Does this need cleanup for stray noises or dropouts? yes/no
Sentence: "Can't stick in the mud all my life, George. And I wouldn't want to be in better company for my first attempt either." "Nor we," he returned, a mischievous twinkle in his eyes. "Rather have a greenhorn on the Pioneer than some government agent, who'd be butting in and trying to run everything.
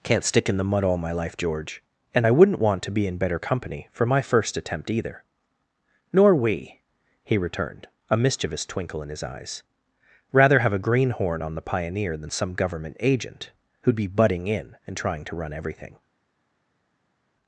no